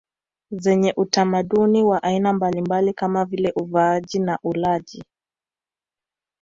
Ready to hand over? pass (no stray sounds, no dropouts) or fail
pass